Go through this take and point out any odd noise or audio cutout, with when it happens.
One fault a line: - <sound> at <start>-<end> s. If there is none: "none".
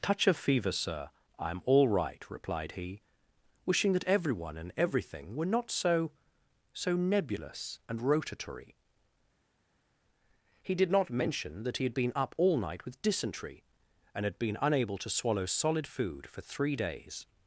none